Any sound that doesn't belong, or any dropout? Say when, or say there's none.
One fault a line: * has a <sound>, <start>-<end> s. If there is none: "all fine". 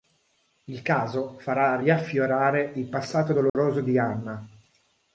* has a dropout, 3.5-3.6 s